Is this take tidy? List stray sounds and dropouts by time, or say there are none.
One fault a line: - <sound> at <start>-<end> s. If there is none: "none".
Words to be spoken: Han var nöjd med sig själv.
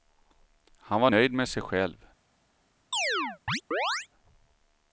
- chirp at 2.9-4.1 s